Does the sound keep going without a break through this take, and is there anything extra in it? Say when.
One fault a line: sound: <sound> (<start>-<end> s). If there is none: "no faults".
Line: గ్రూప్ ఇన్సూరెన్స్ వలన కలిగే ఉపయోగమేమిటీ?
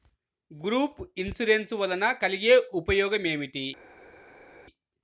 no faults